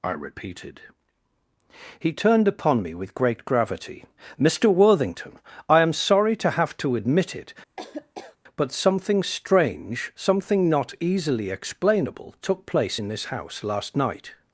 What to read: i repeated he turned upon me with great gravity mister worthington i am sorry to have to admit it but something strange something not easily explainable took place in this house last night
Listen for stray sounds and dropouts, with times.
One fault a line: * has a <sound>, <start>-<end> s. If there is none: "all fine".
* has a laugh, 7.8-8.4 s